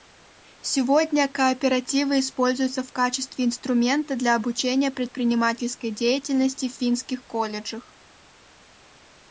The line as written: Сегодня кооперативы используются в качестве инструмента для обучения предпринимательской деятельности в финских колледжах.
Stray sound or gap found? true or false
false